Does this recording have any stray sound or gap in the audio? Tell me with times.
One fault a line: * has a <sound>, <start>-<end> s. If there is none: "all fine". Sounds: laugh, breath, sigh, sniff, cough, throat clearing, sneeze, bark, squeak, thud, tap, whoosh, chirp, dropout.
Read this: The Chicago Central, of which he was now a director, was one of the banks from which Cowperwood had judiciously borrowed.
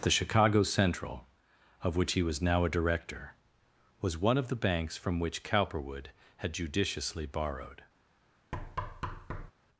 * has a thud, 8.5-9.5 s